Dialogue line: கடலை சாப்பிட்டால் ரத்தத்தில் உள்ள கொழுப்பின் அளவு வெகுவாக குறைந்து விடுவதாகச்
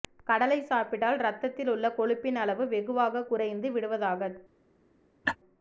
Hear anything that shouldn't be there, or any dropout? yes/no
yes